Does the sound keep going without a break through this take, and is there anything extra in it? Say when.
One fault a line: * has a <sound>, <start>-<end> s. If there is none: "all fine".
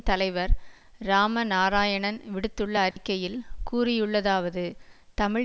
* has a dropout, 2.9-3.0 s